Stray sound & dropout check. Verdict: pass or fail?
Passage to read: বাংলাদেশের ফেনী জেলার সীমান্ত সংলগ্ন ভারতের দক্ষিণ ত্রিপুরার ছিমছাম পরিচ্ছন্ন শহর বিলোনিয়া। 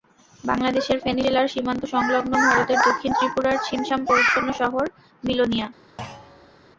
fail